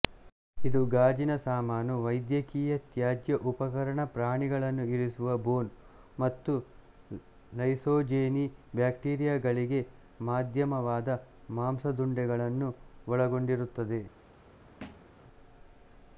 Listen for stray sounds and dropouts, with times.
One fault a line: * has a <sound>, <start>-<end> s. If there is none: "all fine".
* has a thud, 14.8-15.2 s